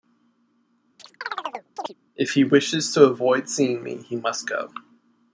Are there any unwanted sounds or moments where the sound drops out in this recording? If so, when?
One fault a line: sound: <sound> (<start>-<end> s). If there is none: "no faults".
sound: chirp (1.0-1.9 s)